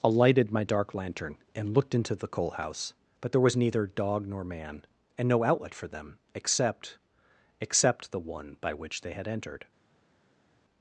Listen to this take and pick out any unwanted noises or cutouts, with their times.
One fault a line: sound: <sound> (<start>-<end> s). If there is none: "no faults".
no faults